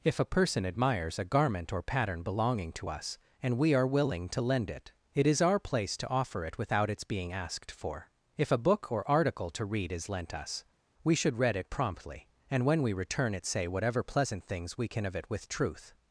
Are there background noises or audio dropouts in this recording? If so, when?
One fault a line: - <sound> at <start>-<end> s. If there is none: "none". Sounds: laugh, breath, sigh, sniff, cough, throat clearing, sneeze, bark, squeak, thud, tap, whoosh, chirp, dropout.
none